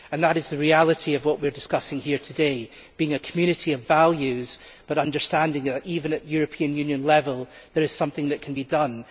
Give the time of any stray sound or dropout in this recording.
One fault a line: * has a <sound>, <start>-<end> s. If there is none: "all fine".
all fine